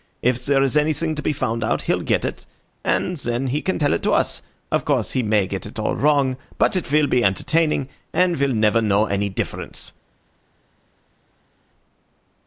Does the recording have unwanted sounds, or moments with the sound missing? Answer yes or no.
no